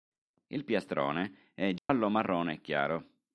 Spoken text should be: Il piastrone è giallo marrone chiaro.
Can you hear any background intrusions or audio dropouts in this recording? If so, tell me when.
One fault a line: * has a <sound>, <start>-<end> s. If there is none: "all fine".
* has a dropout, 1.8-1.9 s